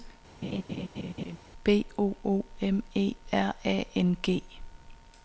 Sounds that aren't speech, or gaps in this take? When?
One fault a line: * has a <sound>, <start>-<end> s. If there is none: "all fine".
* has a laugh, 0.4-1.4 s